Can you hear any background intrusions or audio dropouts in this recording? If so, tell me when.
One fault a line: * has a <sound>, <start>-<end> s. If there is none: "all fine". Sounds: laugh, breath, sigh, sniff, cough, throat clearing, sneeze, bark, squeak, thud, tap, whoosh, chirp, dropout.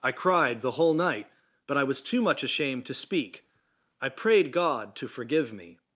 all fine